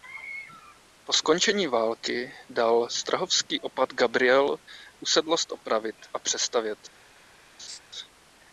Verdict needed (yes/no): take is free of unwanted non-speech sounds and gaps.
no